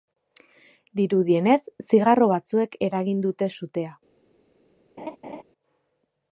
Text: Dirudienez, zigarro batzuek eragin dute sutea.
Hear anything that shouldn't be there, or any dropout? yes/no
yes